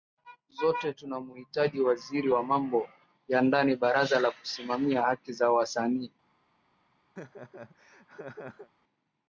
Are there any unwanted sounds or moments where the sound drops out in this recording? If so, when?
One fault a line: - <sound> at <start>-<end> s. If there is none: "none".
- laugh at 7.2-8.7 s